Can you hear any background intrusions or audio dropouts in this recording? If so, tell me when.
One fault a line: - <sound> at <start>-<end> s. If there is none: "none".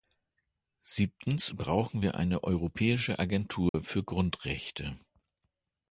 - dropout at 3.7-3.7 s